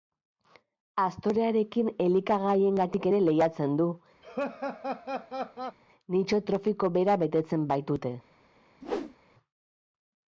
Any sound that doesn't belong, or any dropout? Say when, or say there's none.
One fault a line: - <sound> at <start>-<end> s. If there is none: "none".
- laugh at 4.2-5.8 s
- whoosh at 8.8-9.2 s